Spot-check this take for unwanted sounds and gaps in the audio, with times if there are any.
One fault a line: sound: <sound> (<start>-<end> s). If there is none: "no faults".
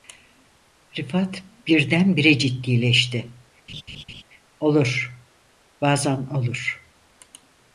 sound: laugh (3.7-4.2 s)